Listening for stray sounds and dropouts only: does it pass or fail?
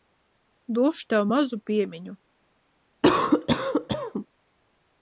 fail